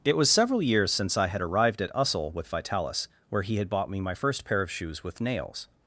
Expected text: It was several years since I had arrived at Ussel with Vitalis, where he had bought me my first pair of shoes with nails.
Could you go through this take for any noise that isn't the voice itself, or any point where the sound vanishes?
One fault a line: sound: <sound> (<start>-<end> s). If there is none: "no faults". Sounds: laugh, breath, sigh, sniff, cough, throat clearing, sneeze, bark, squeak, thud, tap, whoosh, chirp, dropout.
no faults